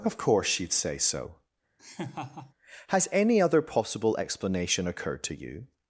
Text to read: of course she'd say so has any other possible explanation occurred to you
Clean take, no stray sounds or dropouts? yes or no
no